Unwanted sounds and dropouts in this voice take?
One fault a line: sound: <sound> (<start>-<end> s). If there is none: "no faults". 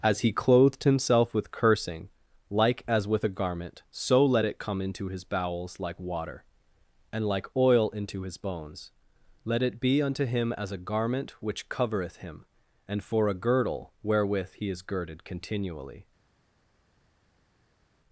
no faults